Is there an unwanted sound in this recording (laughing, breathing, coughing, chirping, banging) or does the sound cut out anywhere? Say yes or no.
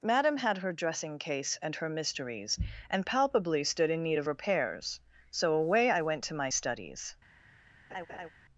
yes